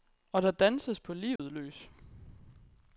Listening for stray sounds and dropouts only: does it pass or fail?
fail